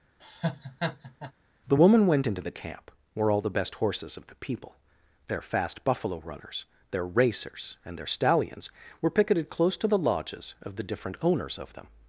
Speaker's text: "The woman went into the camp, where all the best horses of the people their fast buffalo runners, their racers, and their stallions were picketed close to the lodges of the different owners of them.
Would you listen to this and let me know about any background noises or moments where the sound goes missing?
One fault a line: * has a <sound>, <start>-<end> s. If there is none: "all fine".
* has a laugh, 0.2-1.3 s